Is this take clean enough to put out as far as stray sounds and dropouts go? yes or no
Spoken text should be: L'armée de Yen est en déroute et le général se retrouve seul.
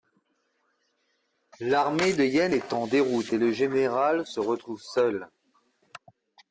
yes